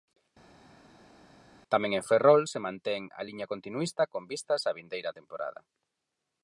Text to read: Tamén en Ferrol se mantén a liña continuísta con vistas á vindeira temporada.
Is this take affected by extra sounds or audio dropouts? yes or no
no